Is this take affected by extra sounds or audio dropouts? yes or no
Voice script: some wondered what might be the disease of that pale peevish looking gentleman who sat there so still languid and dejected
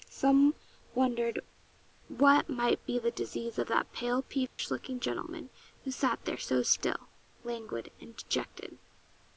yes